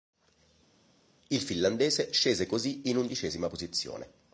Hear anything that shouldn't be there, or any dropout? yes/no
no